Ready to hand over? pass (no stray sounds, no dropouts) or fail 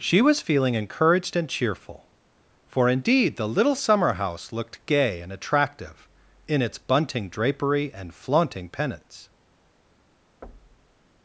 fail